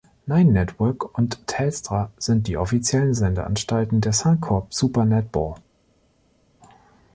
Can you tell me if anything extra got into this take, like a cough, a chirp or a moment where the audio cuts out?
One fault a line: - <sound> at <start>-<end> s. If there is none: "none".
none